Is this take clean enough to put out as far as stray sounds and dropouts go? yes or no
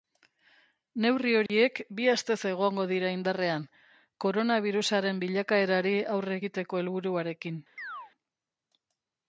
no